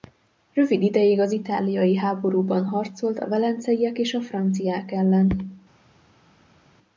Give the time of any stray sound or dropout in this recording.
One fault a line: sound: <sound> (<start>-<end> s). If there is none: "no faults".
no faults